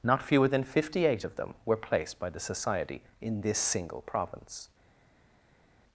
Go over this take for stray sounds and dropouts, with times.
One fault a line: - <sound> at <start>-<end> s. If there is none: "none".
none